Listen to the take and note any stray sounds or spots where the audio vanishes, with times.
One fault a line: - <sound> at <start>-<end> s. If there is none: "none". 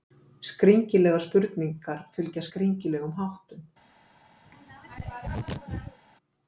- throat clearing at 4.4-6.0 s